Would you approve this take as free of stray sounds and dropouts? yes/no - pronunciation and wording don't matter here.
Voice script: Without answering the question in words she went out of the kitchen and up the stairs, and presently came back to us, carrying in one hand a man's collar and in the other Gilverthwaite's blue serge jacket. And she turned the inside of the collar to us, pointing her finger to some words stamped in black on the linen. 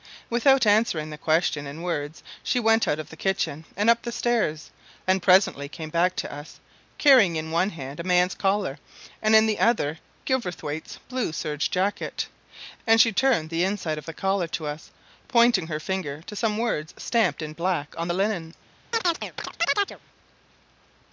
no